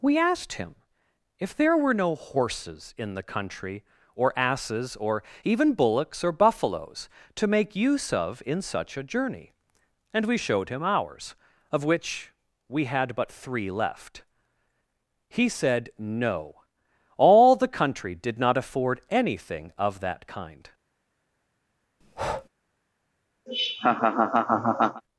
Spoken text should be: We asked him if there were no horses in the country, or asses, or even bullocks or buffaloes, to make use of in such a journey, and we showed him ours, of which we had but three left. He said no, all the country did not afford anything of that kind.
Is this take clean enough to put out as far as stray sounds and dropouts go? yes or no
no